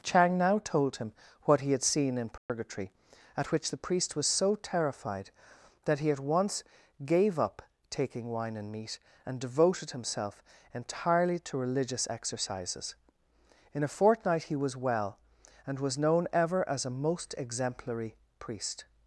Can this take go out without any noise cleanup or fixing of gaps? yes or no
no